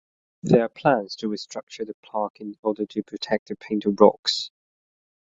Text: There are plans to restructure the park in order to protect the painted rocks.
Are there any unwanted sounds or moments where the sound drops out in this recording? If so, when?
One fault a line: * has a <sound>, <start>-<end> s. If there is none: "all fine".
all fine